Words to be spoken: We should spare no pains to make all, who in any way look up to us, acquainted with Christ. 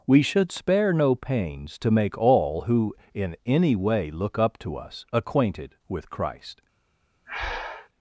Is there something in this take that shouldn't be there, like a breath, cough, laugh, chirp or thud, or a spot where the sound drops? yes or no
yes